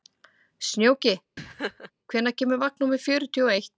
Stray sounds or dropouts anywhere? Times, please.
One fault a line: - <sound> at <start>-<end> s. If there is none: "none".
- laugh at 1.4-1.9 s